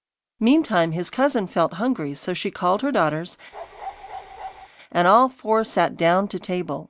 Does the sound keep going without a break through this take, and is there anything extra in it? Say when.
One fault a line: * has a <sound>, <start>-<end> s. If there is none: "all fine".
* has a bark, 3.5-4.7 s